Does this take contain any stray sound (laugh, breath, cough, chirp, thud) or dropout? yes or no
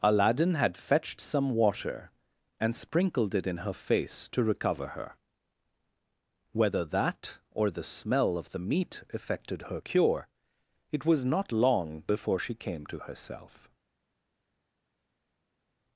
no